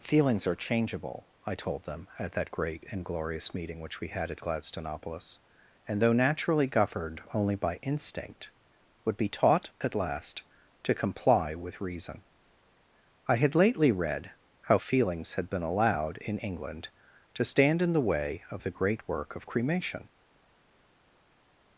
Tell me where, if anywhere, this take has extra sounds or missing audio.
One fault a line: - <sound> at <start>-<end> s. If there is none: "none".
none